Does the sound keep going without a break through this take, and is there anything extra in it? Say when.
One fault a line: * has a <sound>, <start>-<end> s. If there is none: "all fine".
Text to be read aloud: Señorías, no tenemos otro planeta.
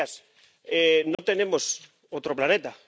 * has a dropout, 1.1-1.2 s